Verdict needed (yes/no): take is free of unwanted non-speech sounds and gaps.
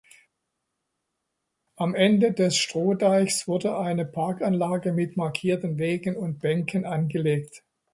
yes